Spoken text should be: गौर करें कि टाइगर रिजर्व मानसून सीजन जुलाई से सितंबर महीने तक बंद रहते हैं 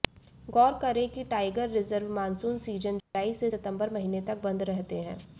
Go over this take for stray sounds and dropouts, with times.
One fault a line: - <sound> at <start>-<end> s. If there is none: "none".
- dropout at 3.0-3.1 s